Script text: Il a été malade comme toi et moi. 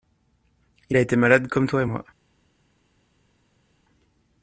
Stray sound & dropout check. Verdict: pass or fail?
pass